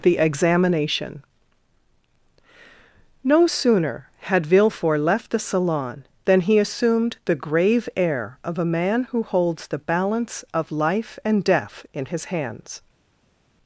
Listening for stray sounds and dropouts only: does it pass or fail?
pass